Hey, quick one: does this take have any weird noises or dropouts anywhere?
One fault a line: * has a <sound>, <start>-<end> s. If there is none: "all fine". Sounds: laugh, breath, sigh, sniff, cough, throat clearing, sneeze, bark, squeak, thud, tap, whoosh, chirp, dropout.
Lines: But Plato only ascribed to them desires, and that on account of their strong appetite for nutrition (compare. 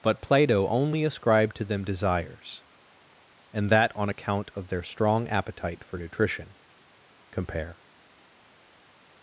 all fine